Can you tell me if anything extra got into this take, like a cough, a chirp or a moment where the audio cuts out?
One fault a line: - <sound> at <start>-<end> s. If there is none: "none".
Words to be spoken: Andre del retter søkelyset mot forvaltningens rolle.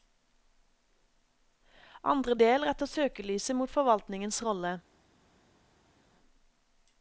none